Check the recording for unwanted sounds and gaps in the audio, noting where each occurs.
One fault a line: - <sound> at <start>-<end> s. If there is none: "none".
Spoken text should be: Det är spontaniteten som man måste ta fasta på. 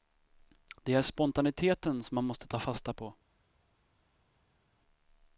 none